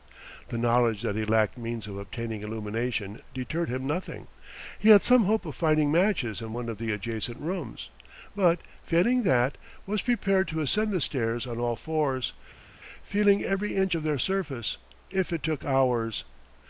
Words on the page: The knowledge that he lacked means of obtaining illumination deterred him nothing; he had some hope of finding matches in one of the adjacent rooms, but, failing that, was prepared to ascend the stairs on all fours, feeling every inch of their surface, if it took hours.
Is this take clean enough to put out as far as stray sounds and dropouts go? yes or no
yes